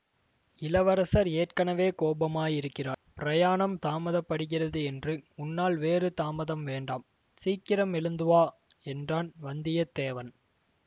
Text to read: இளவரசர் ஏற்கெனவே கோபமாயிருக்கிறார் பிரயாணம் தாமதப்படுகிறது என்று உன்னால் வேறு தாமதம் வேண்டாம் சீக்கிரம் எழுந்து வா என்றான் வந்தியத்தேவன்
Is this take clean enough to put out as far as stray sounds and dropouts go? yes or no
yes